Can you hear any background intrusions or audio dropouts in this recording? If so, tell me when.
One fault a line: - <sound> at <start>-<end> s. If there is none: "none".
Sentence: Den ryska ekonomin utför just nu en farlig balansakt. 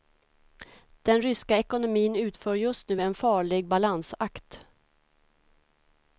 none